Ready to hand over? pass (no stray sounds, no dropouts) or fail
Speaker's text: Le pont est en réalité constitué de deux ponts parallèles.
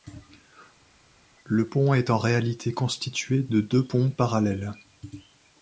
pass